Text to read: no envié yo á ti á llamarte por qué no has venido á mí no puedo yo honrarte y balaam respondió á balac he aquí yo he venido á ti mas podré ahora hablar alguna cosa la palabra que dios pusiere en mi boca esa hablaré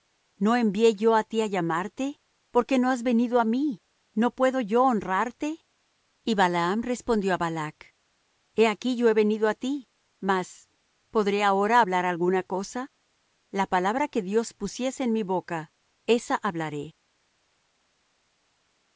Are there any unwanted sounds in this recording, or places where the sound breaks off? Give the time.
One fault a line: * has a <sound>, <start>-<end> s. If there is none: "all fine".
all fine